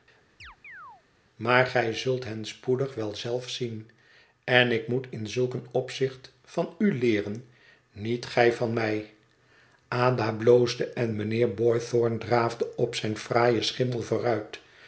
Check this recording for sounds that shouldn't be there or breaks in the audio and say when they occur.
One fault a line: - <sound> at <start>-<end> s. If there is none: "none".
- chirp at 0.4-1.0 s